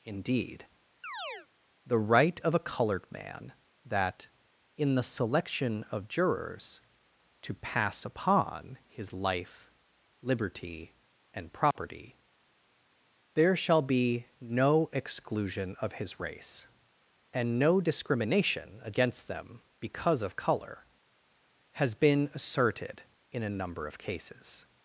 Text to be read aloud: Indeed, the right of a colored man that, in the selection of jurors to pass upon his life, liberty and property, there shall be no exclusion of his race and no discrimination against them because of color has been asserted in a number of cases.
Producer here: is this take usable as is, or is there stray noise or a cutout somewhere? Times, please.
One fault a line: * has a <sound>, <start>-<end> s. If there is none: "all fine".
* has a chirp, 1.0-1.5 s
* has a dropout, 11.7-11.8 s